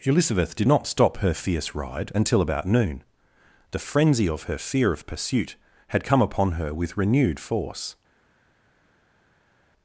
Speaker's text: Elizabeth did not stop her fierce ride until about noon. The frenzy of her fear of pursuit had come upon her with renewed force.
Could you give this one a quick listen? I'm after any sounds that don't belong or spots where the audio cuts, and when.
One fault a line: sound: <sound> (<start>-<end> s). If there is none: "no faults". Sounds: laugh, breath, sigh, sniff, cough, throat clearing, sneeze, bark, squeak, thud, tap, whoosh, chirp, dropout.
no faults